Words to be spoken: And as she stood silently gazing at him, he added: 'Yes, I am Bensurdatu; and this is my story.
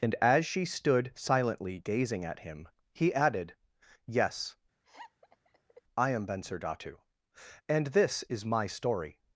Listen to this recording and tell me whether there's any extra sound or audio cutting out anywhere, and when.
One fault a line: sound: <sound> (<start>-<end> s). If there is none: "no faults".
sound: laugh (4.8-5.8 s)